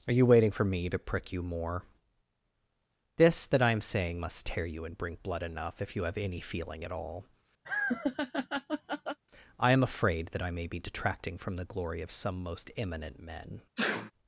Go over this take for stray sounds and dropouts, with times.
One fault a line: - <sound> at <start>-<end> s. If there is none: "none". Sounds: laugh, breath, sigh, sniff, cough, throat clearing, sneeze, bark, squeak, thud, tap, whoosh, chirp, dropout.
- laugh at 7.6-9.2 s
- sneeze at 13.8-14.1 s